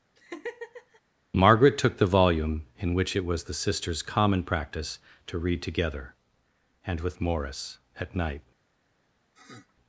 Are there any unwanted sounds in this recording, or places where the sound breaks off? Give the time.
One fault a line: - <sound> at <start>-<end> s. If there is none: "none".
- laugh at 0.2-1.0 s
- sniff at 9.3-9.7 s